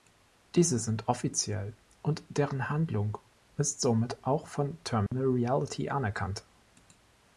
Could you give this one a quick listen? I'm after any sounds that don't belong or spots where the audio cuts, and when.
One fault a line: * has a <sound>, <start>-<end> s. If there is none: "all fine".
* has a dropout, 5.1-5.1 s